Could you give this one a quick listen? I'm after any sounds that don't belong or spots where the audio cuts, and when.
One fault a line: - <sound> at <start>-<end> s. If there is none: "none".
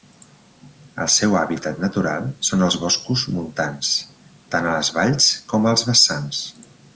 none